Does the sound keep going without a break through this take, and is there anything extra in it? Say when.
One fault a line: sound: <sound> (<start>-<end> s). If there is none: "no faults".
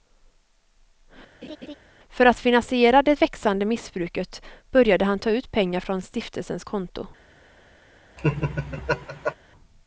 sound: laugh (1.4-1.7 s)
sound: laugh (8.2-9.3 s)